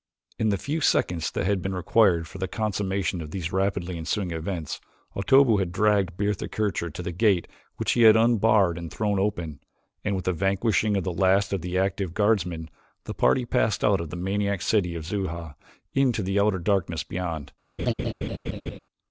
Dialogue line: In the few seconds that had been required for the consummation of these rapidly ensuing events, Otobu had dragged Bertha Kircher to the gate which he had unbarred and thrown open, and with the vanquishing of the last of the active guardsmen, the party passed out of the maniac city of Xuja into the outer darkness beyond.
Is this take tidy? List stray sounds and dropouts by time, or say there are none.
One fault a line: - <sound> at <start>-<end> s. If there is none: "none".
- laugh at 17.8-18.8 s